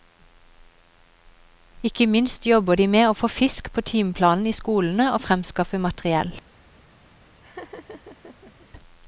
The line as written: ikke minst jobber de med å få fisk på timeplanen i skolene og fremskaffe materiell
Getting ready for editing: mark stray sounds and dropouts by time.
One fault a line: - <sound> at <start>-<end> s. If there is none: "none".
- laugh at 7.4-8.7 s